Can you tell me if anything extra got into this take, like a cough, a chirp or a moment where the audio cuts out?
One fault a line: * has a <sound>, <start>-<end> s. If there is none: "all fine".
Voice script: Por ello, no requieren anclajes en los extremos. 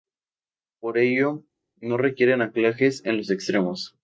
all fine